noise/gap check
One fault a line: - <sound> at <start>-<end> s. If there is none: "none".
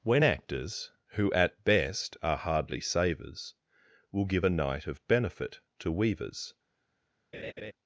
- laugh at 7.3-7.7 s